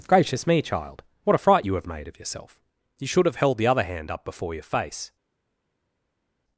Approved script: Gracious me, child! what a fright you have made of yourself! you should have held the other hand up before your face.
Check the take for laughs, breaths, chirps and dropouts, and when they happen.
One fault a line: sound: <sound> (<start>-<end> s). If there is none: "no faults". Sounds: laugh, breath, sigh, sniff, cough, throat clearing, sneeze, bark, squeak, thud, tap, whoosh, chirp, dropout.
no faults